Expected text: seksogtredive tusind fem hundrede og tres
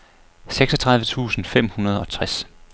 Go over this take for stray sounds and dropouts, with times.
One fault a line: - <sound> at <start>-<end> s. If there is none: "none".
none